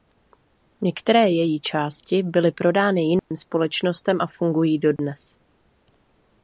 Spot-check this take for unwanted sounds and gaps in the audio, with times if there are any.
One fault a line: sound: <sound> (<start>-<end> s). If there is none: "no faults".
sound: dropout (3.2-3.3 s)
sound: dropout (5.0-5.0 s)